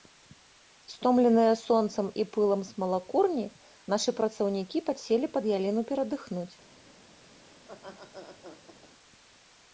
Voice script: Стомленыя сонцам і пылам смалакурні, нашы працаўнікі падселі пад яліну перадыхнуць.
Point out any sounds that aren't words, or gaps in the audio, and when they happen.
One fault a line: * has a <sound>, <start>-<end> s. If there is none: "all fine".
* has a laugh, 7.6-8.9 s